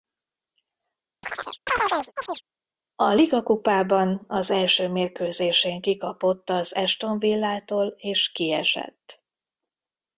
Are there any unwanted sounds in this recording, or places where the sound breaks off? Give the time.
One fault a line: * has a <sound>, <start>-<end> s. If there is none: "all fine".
* has a chirp, 1.2-2.4 s